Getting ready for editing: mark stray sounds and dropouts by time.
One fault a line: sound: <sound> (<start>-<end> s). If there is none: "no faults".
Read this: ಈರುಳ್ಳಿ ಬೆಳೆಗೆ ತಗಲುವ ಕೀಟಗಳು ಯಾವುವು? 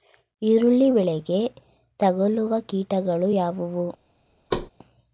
sound: thud (4.5-4.7 s)